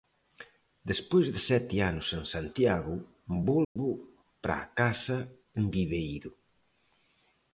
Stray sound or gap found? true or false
true